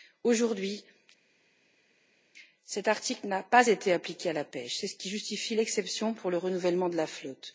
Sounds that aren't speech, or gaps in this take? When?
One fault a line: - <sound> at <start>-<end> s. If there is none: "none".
none